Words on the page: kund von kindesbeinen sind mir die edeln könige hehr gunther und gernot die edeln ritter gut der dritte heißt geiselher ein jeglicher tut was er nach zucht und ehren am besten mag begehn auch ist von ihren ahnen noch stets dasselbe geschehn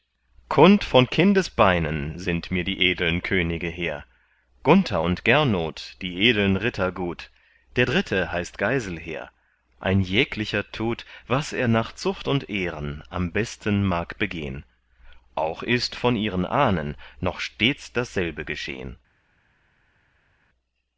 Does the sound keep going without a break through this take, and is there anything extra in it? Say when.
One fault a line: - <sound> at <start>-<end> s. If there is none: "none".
none